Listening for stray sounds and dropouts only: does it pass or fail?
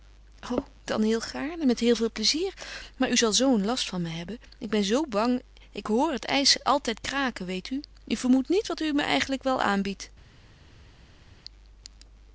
pass